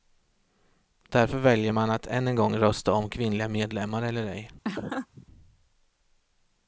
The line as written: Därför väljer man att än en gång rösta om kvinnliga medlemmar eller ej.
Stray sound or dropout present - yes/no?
yes